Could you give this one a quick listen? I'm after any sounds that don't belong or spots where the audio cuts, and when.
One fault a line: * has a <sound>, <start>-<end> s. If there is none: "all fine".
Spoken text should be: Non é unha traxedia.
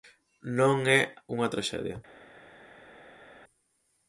all fine